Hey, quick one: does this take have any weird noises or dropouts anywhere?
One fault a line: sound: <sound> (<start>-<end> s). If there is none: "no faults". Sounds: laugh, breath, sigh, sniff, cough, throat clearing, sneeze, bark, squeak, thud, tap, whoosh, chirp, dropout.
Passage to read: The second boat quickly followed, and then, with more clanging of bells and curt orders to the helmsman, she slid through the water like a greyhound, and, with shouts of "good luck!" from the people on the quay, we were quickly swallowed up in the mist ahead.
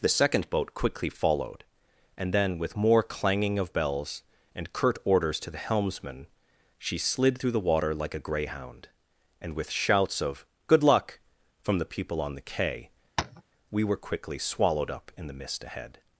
sound: tap (13.2-13.4 s)